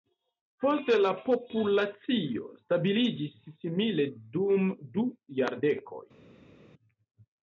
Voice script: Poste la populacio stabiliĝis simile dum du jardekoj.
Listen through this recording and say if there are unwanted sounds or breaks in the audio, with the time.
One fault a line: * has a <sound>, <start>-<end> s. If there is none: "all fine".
all fine